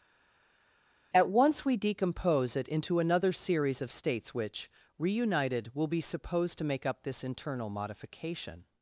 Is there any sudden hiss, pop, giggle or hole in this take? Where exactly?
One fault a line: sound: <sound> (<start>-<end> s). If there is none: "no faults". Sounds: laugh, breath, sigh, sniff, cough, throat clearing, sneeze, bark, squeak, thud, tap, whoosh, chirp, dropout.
no faults